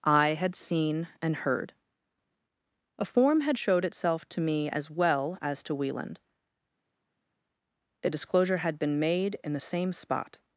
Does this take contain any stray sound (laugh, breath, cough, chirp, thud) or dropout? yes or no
no